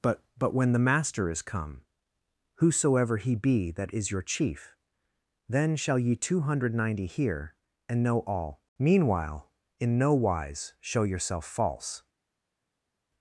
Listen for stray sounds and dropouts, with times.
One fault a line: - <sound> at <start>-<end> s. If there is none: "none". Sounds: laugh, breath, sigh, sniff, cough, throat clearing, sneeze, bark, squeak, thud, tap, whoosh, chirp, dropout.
none